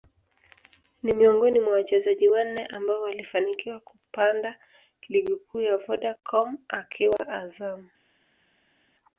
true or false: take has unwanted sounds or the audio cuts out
false